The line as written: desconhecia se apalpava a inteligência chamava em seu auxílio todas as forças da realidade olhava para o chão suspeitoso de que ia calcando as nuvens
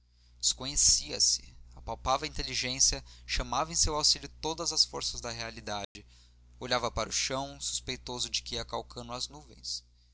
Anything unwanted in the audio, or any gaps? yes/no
yes